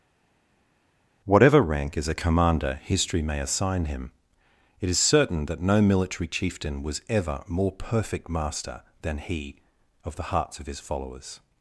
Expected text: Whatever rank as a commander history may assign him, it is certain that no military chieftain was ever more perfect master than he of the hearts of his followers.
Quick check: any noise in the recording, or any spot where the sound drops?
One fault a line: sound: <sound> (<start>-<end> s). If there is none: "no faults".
no faults